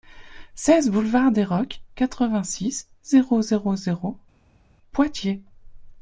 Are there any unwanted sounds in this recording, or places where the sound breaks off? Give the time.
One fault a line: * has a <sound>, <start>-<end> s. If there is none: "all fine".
all fine